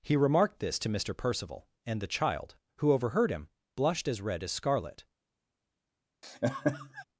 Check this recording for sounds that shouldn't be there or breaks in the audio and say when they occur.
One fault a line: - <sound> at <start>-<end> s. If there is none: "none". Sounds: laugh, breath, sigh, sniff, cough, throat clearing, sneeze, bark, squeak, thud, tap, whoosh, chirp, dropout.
- laugh at 6.2-7.0 s